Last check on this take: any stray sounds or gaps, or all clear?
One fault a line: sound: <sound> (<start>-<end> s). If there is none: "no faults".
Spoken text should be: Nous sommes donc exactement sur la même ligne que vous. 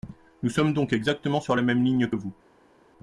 no faults